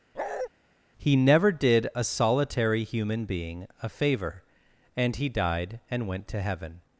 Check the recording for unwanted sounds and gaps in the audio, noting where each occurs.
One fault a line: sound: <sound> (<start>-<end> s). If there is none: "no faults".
sound: bark (0.1-0.5 s)